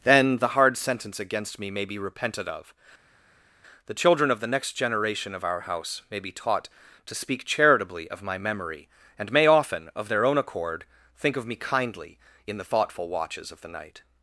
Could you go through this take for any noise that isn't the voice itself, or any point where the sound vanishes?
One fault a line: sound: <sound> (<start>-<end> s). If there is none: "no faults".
no faults